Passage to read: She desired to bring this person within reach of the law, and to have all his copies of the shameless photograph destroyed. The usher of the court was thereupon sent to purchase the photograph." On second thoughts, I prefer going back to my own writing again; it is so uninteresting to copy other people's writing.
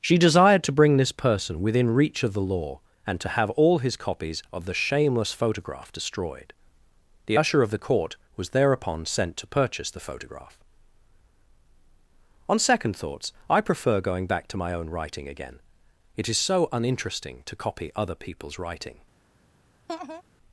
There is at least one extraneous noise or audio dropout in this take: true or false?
true